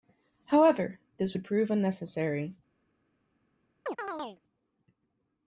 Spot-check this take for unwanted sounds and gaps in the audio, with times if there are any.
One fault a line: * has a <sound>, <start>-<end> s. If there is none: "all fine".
* has a chirp, 3.9-4.4 s